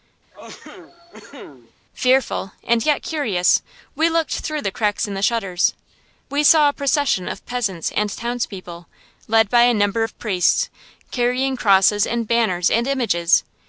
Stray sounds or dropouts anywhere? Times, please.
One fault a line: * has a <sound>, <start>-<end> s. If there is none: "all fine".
* has a cough, 0.3-1.7 s